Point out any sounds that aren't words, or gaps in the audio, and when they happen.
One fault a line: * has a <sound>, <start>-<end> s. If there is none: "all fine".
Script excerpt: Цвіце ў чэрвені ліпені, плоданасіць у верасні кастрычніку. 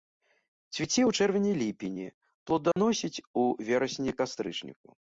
* has a dropout, 2.7-2.8 s